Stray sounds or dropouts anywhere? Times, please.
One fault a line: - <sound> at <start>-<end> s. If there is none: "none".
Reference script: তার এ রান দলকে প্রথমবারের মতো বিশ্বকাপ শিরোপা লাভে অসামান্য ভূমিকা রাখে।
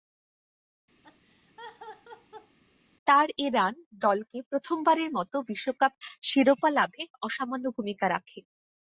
- laugh at 1.0-2.6 s